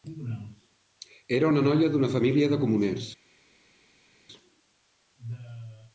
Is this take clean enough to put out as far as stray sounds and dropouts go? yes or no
yes